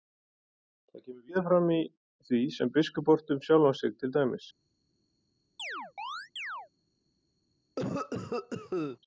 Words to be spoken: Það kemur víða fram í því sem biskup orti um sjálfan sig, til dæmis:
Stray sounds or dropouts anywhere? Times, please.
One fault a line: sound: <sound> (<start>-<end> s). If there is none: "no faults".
sound: chirp (5.6-6.7 s)
sound: cough (7.8-9.0 s)